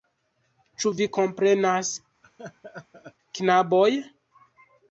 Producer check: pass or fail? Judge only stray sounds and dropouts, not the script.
fail